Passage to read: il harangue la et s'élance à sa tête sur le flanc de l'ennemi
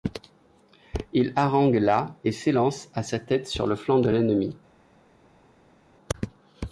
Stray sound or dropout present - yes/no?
no